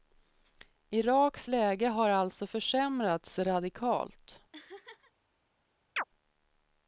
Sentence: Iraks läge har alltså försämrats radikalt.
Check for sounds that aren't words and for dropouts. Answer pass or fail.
fail